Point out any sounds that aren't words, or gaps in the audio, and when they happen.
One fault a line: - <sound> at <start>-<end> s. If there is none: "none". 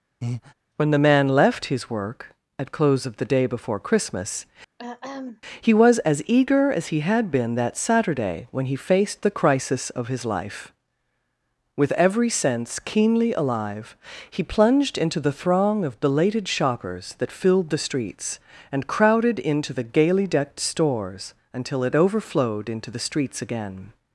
- breath at 0.2-0.5 s
- throat clearing at 4.8-5.4 s